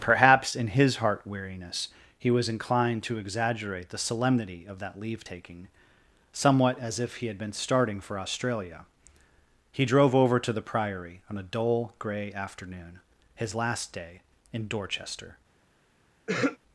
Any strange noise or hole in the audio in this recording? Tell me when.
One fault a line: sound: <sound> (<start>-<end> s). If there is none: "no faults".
sound: throat clearing (16.3-16.6 s)